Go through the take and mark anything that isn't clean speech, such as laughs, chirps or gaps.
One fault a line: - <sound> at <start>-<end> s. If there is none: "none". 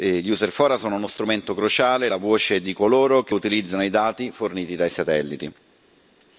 none